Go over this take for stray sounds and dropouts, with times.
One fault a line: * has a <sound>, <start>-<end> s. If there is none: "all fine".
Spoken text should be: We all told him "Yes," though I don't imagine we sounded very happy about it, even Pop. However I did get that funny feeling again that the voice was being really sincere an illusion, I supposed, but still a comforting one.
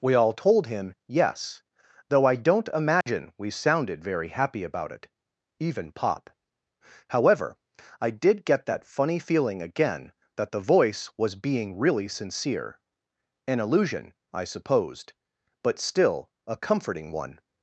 * has a dropout, 3.0-3.1 s